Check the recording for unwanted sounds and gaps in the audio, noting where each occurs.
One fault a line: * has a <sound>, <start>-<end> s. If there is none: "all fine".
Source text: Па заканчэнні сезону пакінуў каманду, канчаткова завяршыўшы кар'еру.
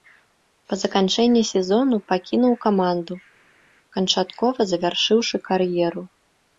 all fine